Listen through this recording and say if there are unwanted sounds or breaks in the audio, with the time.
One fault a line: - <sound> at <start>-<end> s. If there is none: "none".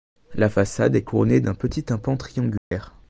- dropout at 2.6-2.7 s